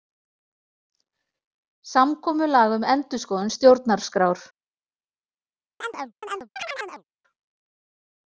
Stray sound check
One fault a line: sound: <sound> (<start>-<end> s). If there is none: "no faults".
sound: chirp (5.8-7.0 s)